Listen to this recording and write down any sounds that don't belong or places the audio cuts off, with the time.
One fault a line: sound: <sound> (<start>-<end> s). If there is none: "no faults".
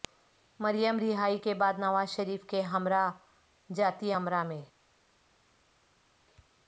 no faults